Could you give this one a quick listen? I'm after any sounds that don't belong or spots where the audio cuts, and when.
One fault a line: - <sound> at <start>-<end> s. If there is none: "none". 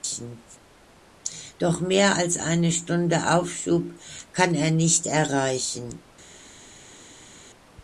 none